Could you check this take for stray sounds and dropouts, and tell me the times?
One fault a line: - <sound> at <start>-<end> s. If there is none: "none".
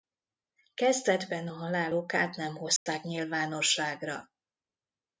- dropout at 2.8-2.9 s